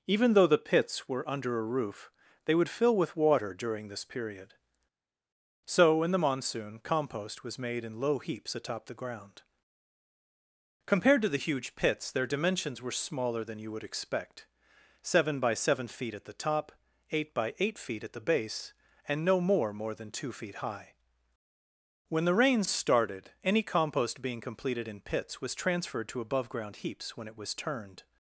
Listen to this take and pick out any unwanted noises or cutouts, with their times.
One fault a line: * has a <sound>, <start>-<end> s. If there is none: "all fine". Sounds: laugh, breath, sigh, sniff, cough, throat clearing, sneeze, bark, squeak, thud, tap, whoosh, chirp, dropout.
all fine